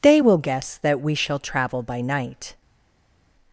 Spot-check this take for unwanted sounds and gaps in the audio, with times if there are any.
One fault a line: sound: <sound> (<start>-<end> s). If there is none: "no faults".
no faults